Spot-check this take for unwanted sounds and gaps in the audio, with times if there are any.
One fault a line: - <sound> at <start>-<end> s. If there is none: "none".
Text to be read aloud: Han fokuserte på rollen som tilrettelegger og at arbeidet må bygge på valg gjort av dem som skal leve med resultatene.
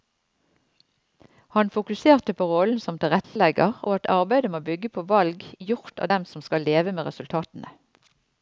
- dropout at 3.2-3.4 s